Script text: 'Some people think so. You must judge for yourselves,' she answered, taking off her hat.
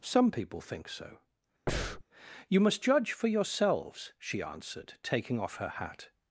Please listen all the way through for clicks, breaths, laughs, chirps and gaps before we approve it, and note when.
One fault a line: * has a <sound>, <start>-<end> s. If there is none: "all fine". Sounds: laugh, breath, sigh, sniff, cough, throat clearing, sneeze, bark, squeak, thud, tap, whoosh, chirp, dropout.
* has a breath, 1.7-2.0 s